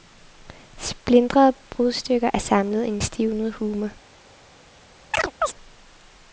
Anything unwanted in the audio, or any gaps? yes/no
yes